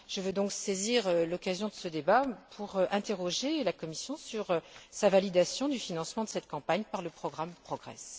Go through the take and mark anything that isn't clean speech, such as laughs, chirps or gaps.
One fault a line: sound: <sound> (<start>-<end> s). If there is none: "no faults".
no faults